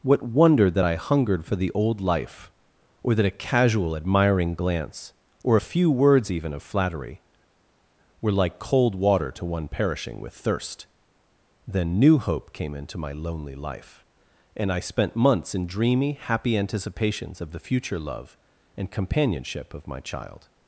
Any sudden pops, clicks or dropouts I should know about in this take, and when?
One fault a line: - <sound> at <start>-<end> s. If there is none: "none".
none